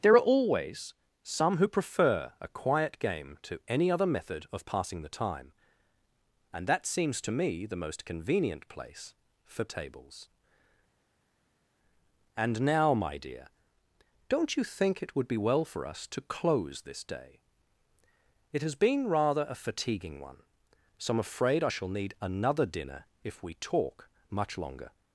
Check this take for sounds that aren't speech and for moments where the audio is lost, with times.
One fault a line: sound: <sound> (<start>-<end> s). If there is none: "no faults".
no faults